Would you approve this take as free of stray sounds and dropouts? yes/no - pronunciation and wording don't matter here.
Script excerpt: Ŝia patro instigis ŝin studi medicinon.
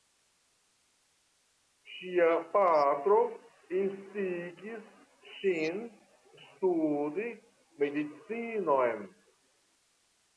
yes